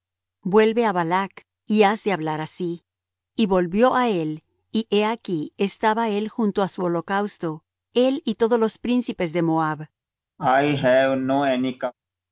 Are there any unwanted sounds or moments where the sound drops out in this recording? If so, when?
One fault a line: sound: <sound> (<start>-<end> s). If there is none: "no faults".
sound: cough (10.4-11.9 s)